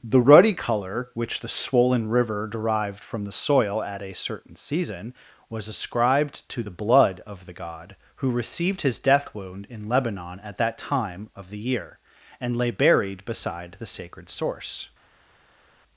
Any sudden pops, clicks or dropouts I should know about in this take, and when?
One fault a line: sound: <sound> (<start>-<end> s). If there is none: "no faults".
no faults